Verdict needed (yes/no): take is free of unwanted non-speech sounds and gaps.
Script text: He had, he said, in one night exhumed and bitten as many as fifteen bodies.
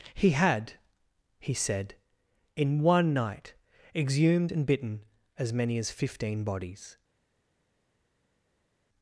yes